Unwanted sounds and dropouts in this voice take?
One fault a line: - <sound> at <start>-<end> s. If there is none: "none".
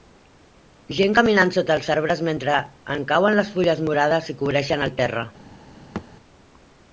- thud at 6.0-6.1 s